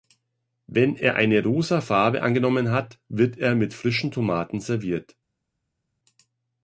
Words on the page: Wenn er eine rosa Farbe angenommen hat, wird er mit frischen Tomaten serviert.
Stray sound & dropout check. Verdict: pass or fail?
pass